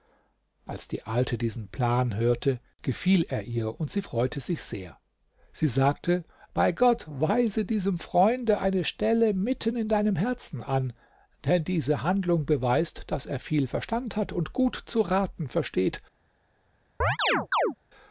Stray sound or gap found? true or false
true